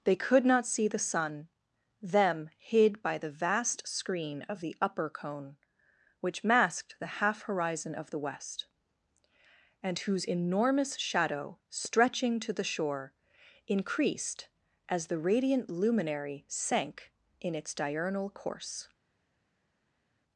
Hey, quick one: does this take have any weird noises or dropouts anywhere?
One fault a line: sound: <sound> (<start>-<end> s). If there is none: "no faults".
no faults